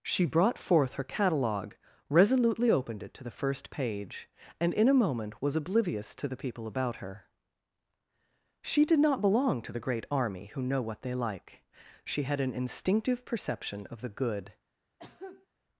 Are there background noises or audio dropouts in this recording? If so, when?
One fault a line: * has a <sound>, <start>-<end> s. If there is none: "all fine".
* has a cough, 15.0-15.5 s